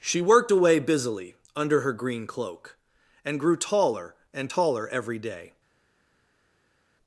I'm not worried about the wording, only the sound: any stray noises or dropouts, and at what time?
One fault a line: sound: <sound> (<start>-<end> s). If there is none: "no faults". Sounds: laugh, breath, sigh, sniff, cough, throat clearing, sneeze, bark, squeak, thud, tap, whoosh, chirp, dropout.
no faults